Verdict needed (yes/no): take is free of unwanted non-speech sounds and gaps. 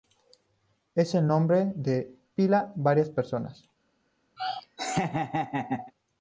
no